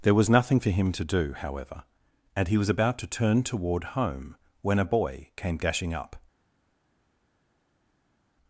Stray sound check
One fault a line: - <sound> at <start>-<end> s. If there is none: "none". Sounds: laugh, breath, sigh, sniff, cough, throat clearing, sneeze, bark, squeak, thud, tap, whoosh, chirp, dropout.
none